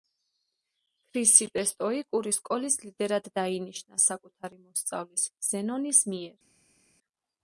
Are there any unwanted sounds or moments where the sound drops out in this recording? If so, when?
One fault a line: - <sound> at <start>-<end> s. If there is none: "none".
none